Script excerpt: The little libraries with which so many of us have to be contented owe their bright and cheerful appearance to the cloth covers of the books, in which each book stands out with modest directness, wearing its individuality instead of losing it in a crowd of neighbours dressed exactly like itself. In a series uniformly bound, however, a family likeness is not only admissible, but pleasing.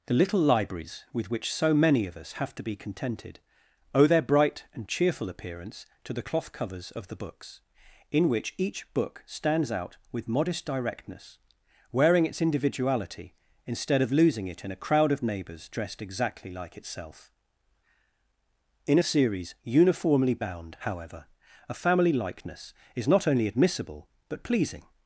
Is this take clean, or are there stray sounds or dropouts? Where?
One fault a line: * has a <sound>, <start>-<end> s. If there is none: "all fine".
all fine